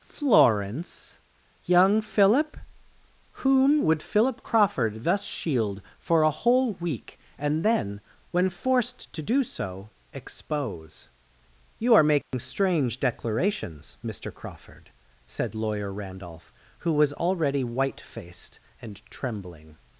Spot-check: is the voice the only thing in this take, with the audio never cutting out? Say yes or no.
no